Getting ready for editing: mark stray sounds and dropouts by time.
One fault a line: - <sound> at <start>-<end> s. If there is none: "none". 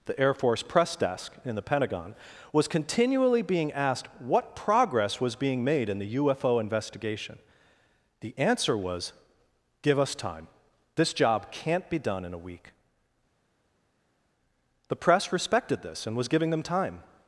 none